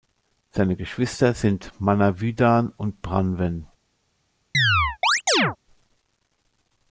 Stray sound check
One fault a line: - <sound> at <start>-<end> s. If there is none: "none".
- chirp at 4.5-5.6 s